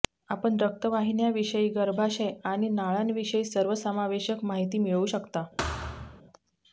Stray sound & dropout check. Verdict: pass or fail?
fail